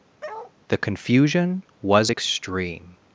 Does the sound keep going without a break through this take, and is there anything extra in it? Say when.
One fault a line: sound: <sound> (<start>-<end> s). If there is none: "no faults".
sound: bark (0.2-0.5 s)